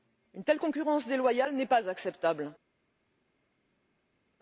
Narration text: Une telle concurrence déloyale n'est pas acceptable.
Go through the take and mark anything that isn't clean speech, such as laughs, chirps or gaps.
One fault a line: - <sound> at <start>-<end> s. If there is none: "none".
none